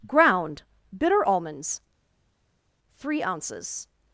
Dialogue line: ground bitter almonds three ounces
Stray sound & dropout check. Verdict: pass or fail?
pass